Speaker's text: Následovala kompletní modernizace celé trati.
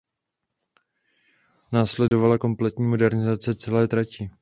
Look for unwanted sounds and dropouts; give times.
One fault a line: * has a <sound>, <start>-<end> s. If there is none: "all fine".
* has a dropout, 2.1-2.1 s